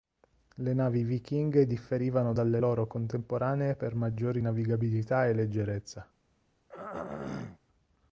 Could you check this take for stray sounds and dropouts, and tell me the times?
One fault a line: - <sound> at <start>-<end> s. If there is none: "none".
- throat clearing at 6.7-7.6 s